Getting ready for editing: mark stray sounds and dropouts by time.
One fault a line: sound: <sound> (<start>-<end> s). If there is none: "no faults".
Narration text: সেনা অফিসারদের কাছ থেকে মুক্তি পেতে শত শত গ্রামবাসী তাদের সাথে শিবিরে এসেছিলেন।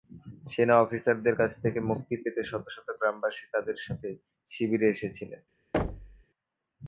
sound: thud (5.7-6.2 s)